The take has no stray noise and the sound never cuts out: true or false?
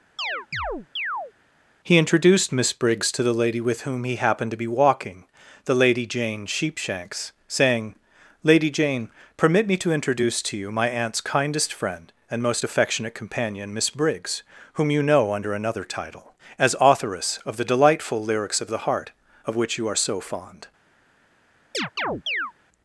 false